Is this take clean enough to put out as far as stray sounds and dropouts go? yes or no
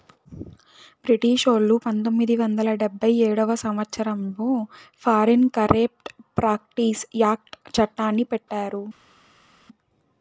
yes